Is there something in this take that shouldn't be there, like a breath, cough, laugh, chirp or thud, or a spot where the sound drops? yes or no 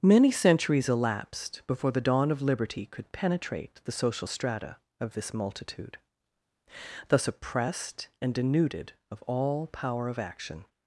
no